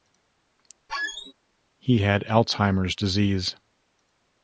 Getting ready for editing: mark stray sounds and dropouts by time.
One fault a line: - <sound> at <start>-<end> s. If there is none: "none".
- squeak at 0.9-1.3 s